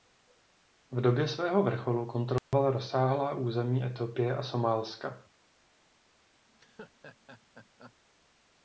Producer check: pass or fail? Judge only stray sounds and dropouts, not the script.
fail